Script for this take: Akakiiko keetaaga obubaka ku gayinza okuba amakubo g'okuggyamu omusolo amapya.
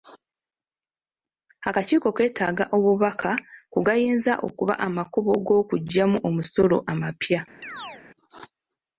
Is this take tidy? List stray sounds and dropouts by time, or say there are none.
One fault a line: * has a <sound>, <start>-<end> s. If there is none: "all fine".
* has a chirp, 7.6-8.0 s